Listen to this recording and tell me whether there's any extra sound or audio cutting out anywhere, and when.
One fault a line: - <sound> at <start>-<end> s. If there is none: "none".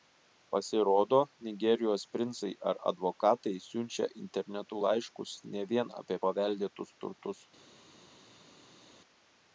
none